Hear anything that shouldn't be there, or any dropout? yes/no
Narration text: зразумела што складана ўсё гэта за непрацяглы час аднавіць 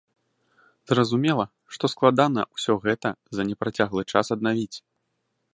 no